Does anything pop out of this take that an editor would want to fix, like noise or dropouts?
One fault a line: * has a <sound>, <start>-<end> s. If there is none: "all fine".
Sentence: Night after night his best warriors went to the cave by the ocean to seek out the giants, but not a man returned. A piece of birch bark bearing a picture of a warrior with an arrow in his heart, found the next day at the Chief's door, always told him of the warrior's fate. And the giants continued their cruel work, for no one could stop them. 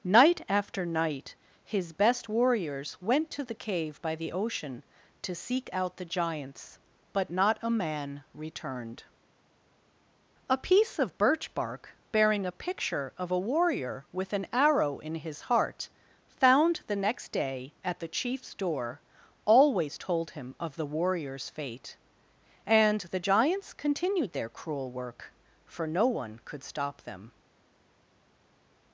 all fine